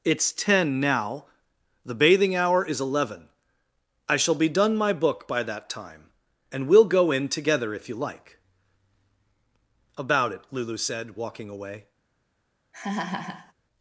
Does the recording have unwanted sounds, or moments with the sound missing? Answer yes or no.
yes